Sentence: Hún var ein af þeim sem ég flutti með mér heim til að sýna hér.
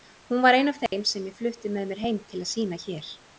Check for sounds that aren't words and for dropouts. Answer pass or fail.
fail